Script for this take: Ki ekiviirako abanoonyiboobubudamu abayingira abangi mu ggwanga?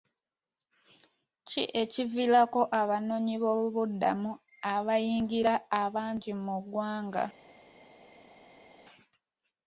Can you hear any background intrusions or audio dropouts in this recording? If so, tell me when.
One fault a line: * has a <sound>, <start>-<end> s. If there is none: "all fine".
all fine